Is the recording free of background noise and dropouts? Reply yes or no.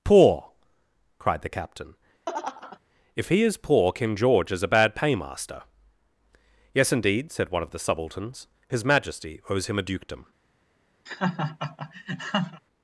no